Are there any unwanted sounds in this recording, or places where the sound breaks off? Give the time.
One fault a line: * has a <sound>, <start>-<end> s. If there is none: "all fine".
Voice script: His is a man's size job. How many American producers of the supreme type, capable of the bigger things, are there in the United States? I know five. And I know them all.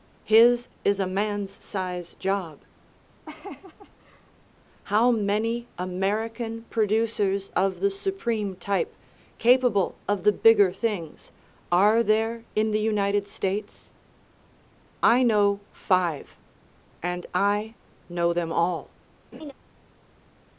* has a laugh, 3.3-4.3 s
* has a laugh, 19.3-19.5 s